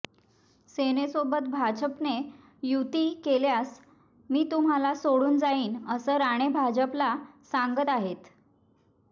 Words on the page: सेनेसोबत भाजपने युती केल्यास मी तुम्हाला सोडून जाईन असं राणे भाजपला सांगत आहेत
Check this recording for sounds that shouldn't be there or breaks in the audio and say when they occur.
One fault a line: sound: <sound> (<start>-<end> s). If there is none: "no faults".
no faults